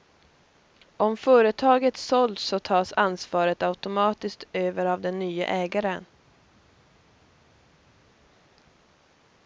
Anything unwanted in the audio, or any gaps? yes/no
no